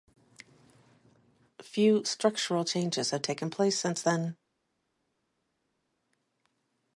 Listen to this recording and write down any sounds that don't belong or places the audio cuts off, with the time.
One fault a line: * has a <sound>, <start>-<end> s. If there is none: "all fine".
all fine